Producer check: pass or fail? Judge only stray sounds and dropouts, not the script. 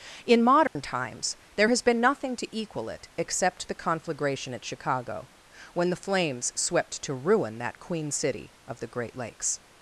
fail